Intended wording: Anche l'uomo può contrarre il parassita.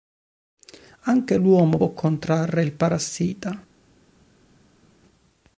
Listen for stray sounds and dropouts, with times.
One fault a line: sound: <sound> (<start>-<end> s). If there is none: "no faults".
no faults